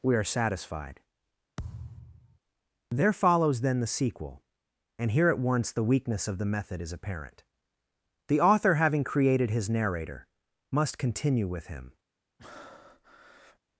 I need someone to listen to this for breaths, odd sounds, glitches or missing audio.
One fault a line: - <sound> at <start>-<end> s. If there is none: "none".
- thud at 1.6-2.4 s
- breath at 12.4-13.6 s